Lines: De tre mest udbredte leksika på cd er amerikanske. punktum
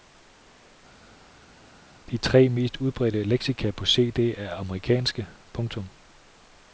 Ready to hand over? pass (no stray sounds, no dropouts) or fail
pass